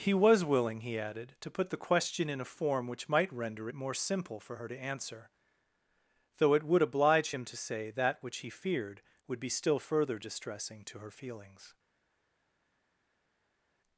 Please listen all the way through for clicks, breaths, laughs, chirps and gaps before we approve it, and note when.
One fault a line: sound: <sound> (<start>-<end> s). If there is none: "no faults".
no faults